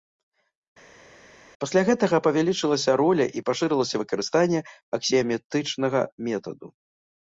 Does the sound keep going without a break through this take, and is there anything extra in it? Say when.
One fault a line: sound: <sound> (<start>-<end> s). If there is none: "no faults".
no faults